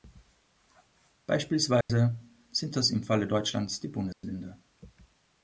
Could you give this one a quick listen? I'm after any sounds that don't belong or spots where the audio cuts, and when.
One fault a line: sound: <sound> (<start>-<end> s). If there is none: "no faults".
sound: dropout (1.8-1.9 s)
sound: dropout (4.1-4.2 s)